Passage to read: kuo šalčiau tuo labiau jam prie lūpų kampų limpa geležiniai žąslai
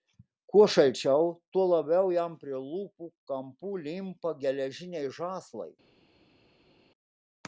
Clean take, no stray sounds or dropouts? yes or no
yes